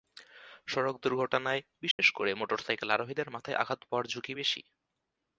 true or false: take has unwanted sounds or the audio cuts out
true